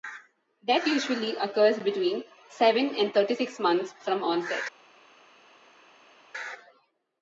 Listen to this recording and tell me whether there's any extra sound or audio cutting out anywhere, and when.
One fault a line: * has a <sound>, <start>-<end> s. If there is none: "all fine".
all fine